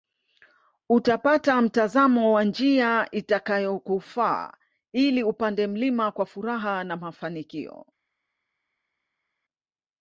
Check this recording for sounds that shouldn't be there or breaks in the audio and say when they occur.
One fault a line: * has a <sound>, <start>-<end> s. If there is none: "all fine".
all fine